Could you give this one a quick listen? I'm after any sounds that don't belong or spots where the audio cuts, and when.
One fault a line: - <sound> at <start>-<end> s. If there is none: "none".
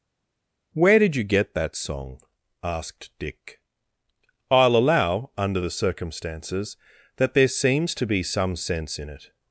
none